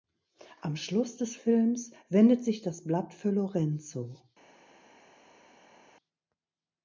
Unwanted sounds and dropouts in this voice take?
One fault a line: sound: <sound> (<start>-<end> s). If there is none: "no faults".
no faults